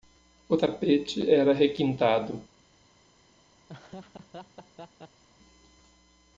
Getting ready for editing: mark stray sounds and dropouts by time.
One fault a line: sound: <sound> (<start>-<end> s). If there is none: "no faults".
sound: laugh (3.7-5.2 s)